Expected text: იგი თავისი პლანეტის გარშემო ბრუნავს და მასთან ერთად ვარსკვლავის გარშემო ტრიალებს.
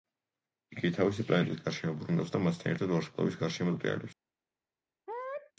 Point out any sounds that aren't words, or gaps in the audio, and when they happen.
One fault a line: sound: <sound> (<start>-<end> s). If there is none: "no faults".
sound: sneeze (5.1-5.5 s)